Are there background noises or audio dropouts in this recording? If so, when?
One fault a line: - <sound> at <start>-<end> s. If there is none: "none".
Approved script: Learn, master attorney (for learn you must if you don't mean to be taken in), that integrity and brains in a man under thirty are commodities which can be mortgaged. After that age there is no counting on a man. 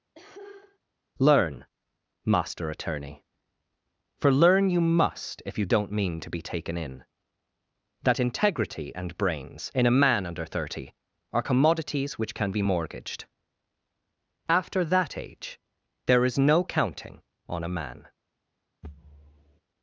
- cough at 0.1-0.8 s
- thud at 18.8-19.6 s